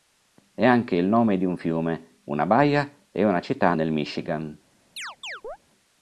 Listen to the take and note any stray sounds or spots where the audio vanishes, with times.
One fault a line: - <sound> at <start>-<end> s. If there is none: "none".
- chirp at 5.0-5.6 s